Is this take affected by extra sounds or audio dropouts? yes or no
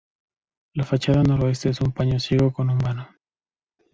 no